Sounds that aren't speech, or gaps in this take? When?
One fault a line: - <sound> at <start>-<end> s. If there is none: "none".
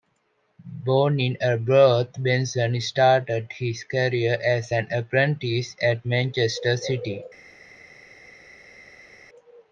none